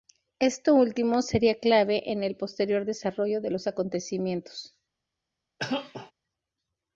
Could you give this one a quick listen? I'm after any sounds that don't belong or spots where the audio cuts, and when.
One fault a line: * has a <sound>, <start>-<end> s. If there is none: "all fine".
* has a cough, 5.6-6.1 s